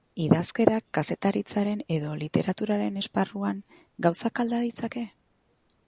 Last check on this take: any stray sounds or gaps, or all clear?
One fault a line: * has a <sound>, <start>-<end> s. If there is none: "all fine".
all fine